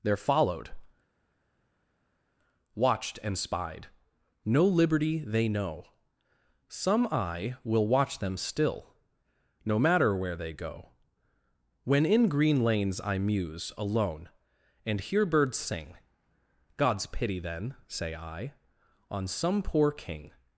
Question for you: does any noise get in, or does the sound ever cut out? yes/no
no